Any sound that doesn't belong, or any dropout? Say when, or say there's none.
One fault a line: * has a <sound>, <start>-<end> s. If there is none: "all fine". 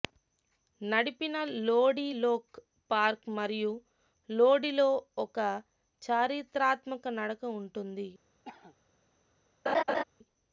* has a cough, 8.4-8.8 s
* has a laugh, 9.7-10.0 s